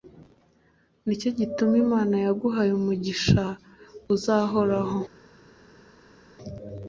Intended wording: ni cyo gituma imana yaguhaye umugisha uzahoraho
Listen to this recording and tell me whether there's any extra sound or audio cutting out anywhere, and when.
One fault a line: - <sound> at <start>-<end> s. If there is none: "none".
none